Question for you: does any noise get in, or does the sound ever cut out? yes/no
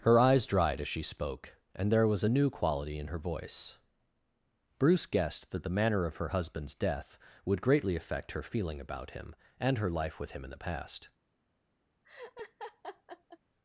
yes